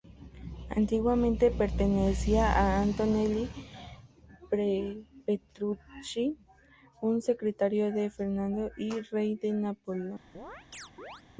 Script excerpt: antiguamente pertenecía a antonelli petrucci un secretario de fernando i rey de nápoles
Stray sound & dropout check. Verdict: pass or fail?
fail